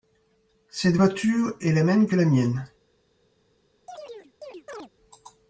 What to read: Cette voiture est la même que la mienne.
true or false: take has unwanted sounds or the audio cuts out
true